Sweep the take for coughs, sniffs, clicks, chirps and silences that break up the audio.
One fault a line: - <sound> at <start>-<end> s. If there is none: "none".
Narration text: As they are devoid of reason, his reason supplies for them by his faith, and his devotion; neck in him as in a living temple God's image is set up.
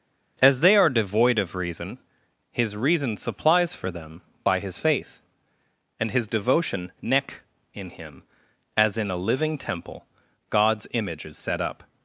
none